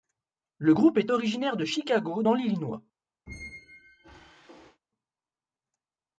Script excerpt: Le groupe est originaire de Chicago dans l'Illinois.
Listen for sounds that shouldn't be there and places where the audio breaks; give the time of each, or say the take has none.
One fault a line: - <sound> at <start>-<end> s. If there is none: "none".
- squeak at 3.3-4.8 s